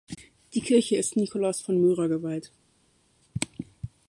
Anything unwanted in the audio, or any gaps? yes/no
no